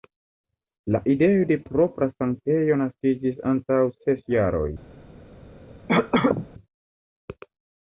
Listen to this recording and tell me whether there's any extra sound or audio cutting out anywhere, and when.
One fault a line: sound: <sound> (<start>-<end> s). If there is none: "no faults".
sound: cough (5.9-6.5 s)